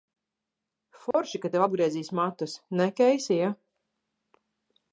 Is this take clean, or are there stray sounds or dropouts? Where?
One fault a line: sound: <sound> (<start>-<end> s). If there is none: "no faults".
sound: dropout (1.1-1.1 s)